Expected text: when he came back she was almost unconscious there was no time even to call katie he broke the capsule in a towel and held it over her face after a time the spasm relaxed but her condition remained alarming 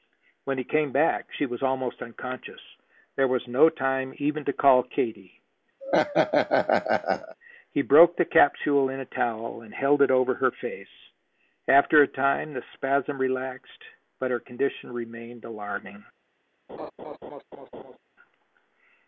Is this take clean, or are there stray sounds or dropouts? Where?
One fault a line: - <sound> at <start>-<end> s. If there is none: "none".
- laugh at 5.8-7.3 s
- laugh at 16.7-18.0 s